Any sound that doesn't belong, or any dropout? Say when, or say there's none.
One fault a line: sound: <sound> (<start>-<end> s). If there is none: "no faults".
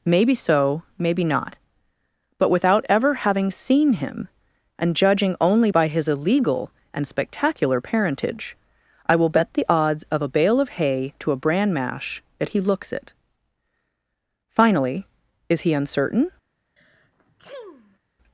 sound: sneeze (16.8-18.0 s)